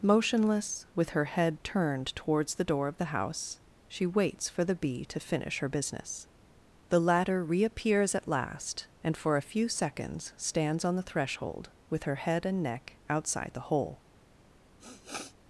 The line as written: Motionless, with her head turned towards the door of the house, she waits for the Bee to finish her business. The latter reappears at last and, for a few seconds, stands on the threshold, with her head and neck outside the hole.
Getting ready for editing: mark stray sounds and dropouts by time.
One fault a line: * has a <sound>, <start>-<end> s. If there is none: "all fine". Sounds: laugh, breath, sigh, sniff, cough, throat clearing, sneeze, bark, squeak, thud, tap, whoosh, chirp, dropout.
* has a sniff, 14.8-15.3 s